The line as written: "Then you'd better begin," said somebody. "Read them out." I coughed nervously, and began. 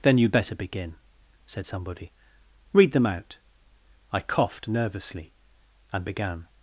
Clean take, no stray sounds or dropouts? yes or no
yes